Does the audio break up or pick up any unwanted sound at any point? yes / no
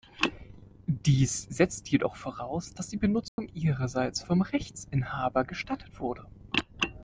yes